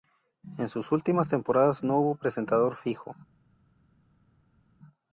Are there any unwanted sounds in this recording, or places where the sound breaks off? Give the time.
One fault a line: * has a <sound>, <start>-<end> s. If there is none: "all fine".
all fine